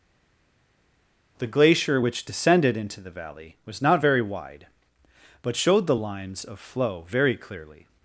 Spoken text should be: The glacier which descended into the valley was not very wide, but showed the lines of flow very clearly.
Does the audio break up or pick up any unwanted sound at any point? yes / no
no